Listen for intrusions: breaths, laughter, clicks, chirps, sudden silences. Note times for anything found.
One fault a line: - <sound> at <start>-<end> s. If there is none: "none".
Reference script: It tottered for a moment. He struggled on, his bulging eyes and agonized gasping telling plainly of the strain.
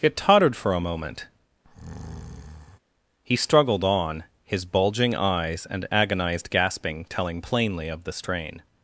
- breath at 1.6-2.8 s